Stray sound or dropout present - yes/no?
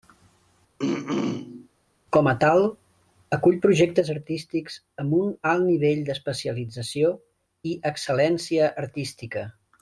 yes